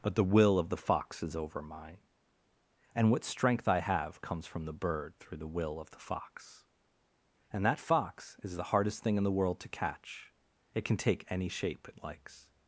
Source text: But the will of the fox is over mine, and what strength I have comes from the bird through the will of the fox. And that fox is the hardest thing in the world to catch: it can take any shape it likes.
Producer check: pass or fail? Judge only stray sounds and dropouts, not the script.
pass